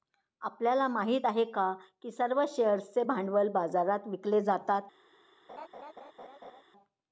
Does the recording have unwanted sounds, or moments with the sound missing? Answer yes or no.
yes